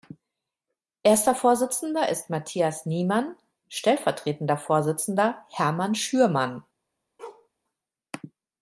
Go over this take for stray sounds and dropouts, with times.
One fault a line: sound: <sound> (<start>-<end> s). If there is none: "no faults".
sound: bark (7.2-7.5 s)